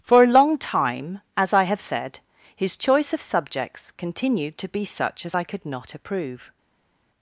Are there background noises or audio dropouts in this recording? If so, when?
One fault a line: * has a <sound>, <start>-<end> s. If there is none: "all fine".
all fine